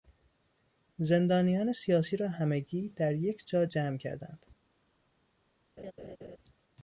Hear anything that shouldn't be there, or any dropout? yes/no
yes